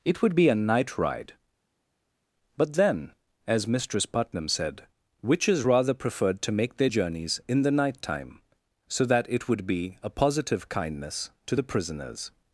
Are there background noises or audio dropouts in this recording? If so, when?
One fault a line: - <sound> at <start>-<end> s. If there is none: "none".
none